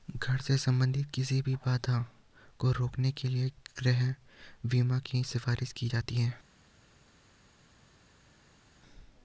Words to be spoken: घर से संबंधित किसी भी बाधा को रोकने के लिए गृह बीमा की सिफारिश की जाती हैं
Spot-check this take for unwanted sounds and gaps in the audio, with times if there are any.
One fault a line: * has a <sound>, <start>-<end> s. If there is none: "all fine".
all fine